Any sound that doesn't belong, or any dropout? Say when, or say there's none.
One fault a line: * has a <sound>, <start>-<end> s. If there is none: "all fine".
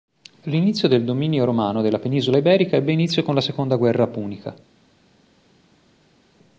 all fine